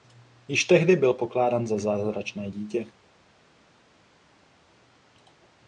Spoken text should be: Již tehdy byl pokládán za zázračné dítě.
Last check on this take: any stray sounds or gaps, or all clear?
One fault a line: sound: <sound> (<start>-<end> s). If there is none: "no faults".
no faults